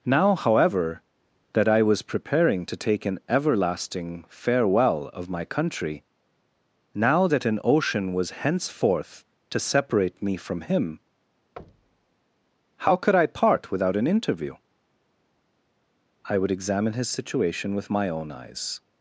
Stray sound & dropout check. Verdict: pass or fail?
fail